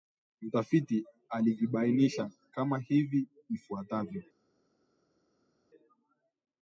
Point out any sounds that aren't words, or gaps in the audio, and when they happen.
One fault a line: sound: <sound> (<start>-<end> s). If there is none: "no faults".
no faults